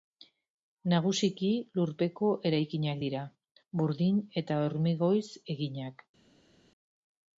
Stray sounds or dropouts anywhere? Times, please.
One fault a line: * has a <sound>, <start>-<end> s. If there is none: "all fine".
all fine